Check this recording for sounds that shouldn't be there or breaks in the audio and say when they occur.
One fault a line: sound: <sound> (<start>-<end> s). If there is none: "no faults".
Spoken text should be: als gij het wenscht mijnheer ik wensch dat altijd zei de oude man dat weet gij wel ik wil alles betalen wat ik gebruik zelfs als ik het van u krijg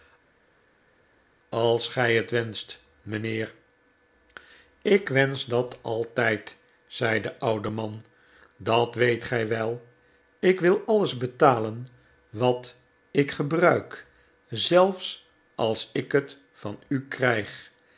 no faults